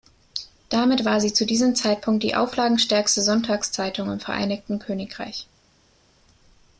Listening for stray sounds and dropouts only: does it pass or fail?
pass